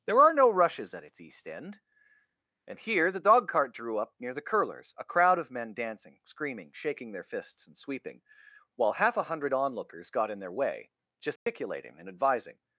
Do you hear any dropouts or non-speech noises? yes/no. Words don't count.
yes